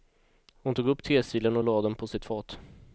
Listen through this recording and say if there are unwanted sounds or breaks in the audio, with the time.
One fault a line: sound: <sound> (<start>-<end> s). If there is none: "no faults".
no faults